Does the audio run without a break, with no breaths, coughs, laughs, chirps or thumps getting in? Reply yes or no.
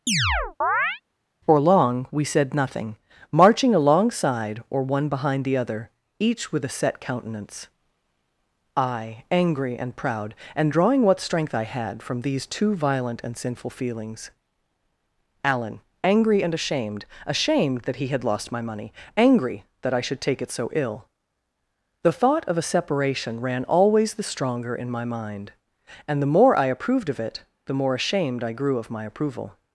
no